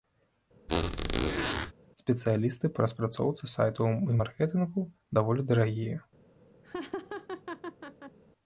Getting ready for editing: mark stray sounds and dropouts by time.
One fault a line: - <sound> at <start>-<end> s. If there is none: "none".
- squeak at 0.7-1.7 s
- laugh at 6.6-8.2 s